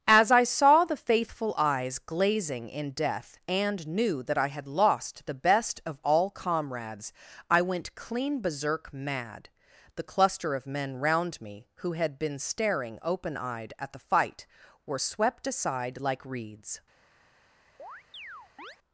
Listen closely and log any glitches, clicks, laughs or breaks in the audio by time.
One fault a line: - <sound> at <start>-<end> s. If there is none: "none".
- chirp at 17.8-18.8 s